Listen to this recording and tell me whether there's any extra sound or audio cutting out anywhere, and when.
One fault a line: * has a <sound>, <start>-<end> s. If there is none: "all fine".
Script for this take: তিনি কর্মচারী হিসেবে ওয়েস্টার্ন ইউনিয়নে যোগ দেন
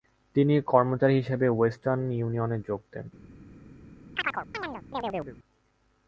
* has a chirp, 4.1-5.4 s